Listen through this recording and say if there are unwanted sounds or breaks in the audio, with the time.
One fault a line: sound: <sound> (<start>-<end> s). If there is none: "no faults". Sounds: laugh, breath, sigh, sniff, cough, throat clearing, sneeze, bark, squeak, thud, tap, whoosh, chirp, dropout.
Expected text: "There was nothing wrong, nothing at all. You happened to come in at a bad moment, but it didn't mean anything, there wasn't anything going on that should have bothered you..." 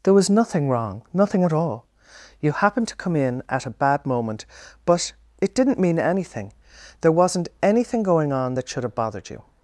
no faults